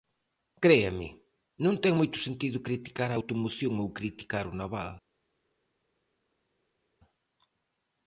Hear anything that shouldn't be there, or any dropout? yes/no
no